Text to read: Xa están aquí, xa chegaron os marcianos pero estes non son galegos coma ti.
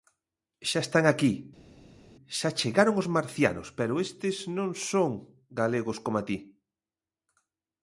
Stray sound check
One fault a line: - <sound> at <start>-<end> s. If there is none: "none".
none